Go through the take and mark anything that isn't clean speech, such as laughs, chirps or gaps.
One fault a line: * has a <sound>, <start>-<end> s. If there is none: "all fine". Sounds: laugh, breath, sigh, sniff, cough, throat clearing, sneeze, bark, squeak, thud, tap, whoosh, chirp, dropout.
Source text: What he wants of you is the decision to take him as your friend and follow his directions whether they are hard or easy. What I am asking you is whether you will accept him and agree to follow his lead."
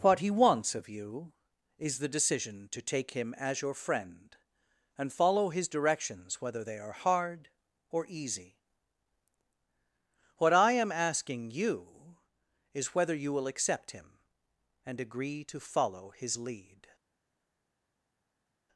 all fine